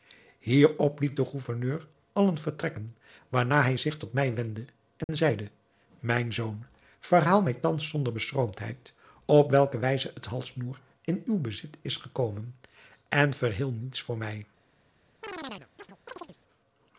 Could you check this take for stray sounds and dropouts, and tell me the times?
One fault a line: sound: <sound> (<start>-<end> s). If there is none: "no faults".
sound: dropout (5.0-5.1 s)
sound: chirp (15.2-16.4 s)